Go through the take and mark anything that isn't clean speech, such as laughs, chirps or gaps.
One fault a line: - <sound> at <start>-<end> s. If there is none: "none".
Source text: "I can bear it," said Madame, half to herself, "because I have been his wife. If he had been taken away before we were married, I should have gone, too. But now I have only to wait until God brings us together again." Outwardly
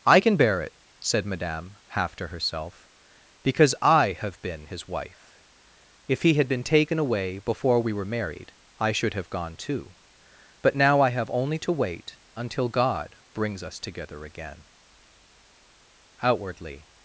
none